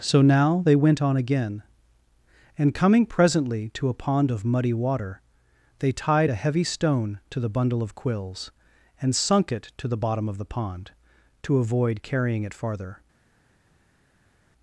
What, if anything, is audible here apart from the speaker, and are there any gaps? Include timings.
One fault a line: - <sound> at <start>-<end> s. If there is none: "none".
none